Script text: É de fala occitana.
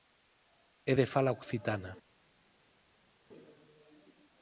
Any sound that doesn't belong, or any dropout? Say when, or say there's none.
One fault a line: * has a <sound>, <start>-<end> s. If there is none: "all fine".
all fine